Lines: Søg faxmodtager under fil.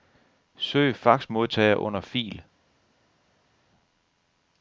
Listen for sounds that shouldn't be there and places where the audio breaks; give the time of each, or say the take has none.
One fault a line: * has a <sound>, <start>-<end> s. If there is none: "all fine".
all fine